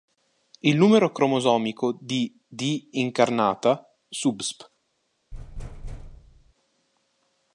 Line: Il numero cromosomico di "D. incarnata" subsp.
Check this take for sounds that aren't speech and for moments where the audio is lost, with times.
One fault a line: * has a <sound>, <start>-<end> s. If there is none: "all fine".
* has a thud, 5.3-6.5 s